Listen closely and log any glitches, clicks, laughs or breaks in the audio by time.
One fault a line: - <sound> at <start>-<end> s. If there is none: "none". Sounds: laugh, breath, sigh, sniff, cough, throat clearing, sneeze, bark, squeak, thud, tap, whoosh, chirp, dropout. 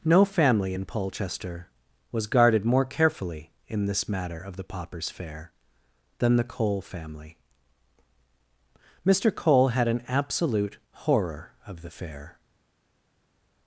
none